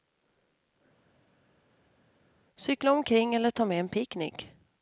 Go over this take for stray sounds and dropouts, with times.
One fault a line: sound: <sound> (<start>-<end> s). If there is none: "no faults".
no faults